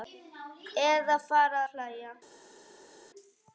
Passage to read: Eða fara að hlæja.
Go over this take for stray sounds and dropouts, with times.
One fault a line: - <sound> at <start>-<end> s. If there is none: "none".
none